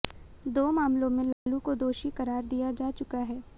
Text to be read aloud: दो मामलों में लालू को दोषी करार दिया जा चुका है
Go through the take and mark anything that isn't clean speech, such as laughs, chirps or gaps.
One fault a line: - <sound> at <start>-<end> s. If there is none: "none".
- dropout at 1.3-1.5 s